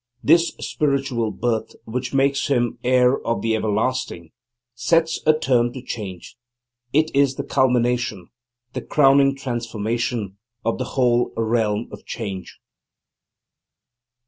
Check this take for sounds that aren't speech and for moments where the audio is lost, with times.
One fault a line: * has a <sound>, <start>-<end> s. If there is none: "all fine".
all fine